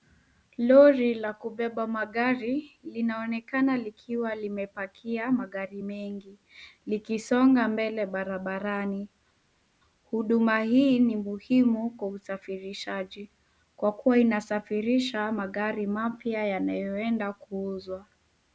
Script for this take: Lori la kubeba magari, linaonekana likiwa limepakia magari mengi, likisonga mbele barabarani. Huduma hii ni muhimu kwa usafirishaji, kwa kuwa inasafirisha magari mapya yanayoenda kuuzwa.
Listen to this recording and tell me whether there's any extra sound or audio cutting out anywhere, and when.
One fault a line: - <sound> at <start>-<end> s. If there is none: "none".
none